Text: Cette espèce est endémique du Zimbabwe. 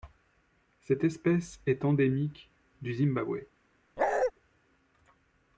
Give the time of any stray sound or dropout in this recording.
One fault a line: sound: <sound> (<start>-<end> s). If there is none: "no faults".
sound: bark (4.0-4.3 s)